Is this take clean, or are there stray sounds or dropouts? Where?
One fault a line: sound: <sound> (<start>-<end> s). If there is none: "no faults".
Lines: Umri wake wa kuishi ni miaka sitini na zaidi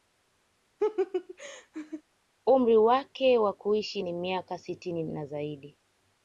sound: laugh (0.8-2.0 s)